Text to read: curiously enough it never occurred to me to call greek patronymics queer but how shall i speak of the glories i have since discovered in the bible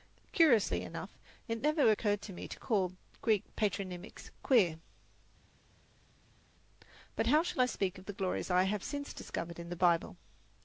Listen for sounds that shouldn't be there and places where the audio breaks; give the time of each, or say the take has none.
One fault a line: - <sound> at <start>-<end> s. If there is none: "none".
none